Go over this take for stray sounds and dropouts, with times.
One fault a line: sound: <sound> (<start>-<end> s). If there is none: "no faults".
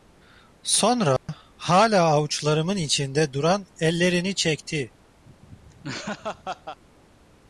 sound: dropout (1.2-1.3 s)
sound: laugh (5.2-6.8 s)